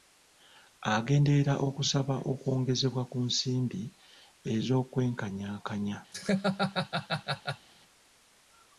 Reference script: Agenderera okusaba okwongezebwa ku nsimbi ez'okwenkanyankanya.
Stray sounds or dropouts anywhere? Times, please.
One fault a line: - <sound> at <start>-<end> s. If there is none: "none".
- laugh at 6.1-7.7 s